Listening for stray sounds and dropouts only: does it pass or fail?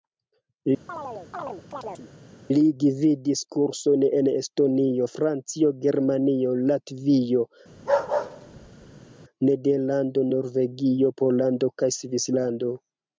fail